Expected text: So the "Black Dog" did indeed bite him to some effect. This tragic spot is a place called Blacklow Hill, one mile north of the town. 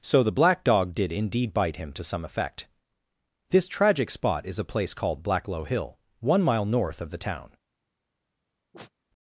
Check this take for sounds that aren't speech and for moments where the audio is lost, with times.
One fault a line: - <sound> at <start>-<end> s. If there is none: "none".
- sneeze at 8.7-8.9 s